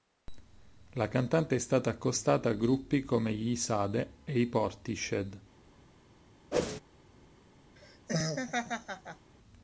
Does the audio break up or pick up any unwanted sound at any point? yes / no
yes